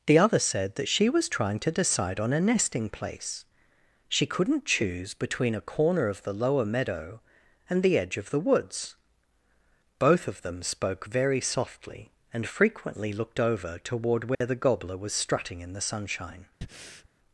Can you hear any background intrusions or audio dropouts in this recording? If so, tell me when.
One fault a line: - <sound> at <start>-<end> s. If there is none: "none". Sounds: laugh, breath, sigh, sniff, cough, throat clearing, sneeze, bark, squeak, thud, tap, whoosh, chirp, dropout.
- dropout at 14.3-14.4 s
- breath at 16.6-17.1 s